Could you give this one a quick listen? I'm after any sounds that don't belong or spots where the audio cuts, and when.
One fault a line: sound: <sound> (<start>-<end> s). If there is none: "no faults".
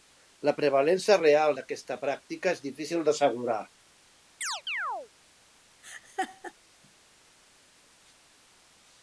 sound: chirp (4.4-5.1 s)
sound: laugh (5.8-6.5 s)